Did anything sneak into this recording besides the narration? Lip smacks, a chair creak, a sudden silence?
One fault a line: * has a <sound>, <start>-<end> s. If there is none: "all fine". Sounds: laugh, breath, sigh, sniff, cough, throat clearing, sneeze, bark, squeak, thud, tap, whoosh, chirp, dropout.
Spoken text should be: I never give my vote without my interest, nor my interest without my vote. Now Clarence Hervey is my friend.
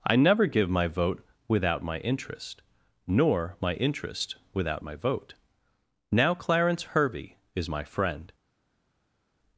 all fine